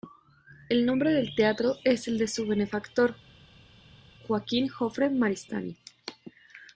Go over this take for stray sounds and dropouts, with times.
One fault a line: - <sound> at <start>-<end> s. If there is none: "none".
none